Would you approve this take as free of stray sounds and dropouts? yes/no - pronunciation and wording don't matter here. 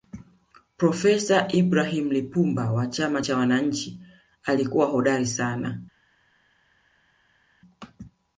yes